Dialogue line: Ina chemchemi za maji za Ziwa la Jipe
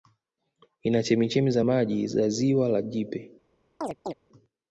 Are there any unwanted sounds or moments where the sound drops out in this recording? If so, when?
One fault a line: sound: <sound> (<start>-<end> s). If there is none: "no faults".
sound: chirp (3.8-4.1 s)